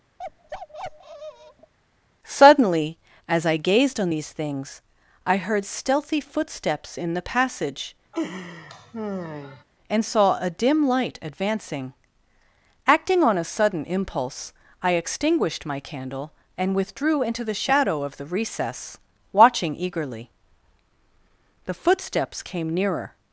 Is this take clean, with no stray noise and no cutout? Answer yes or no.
no